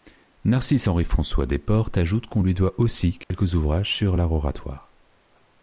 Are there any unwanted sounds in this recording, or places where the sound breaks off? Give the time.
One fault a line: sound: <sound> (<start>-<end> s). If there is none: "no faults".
sound: dropout (3.2-3.3 s)